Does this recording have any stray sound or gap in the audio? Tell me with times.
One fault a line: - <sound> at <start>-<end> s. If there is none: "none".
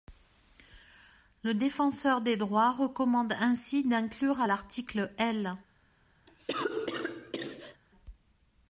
- cough at 6.3-7.8 s